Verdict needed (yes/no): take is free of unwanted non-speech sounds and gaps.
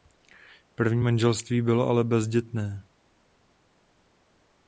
yes